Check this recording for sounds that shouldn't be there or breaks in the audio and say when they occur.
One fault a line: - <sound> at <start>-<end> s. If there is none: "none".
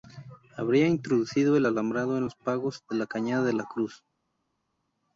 none